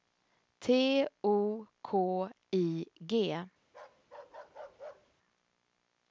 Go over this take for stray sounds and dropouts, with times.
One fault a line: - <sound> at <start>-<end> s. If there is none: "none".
- bark at 3.7-5.2 s